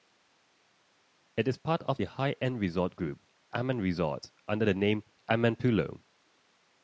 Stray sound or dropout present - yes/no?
no